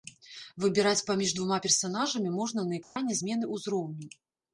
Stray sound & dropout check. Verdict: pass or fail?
fail